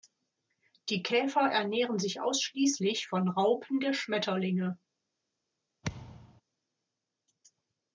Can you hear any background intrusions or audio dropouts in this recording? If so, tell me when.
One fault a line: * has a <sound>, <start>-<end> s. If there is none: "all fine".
* has a thud, 5.8-6.4 s